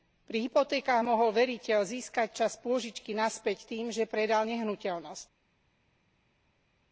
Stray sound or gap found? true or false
false